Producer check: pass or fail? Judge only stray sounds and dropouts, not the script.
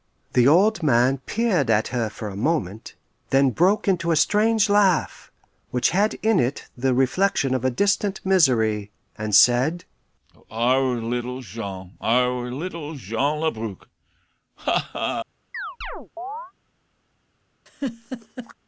fail